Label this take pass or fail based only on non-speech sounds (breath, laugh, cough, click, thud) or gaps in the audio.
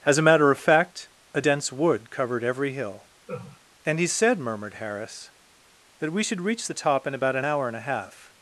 fail